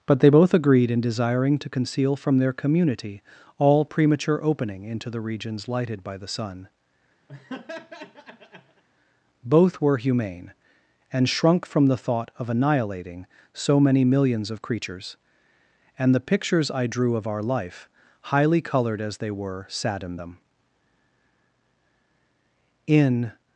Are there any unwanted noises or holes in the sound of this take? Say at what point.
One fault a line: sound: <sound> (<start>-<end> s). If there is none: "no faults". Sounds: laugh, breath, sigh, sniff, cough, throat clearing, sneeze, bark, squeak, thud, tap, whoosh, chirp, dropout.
sound: laugh (7.3-8.8 s)